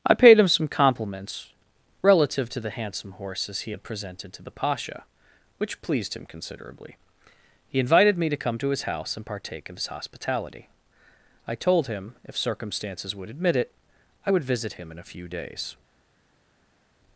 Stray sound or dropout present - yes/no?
no